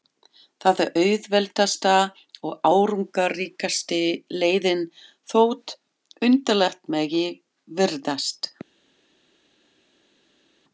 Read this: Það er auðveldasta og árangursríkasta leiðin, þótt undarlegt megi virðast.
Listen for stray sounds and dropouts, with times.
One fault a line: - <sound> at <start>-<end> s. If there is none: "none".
none